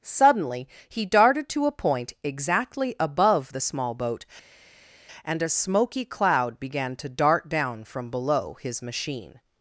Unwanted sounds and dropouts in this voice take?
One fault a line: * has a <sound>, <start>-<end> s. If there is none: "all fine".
all fine